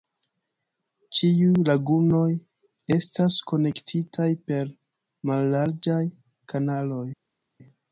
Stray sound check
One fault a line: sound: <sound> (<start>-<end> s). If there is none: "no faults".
no faults